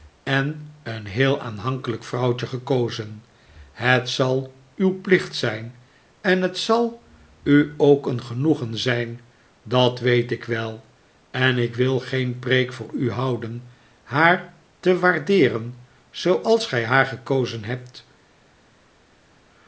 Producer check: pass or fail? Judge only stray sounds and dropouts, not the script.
pass